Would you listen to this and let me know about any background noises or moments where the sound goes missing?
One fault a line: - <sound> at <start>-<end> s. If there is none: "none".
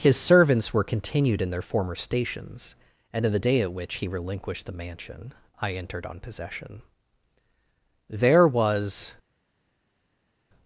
none